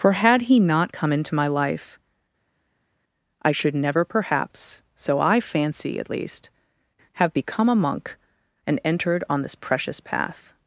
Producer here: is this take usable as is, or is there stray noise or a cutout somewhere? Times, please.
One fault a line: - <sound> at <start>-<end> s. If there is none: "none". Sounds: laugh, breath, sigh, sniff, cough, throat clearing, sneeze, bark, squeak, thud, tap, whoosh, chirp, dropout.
none